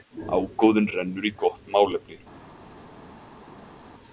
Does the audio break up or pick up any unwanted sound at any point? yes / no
no